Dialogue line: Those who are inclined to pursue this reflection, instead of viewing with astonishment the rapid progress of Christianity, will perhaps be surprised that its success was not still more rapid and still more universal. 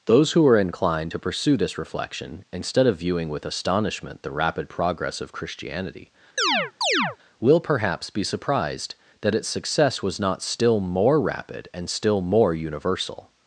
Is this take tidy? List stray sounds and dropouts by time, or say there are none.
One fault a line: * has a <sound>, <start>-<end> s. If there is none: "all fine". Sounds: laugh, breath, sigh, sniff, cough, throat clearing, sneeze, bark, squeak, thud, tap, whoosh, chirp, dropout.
* has a chirp, 6.4-7.2 s